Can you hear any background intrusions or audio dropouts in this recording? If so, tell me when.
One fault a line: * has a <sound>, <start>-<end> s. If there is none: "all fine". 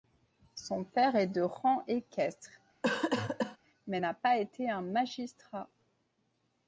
* has a cough, 2.8-3.6 s